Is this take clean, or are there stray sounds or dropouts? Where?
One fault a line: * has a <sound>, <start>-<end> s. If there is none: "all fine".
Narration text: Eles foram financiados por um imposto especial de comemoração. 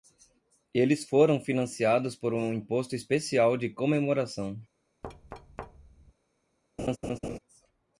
* has a thud, 5.0-6.1 s
* has a laugh, 6.8-7.4 s